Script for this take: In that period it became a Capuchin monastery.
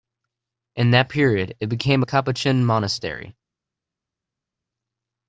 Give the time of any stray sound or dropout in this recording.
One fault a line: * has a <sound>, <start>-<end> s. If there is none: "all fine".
all fine